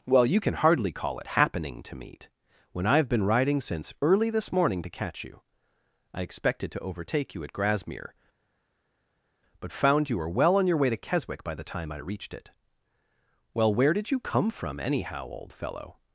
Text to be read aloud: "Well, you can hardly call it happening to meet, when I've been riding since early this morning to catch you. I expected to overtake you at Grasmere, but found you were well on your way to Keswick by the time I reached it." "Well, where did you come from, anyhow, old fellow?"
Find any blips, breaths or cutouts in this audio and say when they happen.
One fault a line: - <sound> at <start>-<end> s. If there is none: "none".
none